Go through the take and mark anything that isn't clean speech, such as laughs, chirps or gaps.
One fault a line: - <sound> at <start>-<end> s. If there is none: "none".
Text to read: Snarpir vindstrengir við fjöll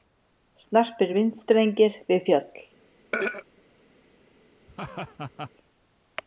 - throat clearing at 3.1-3.5 s
- laugh at 4.7-5.5 s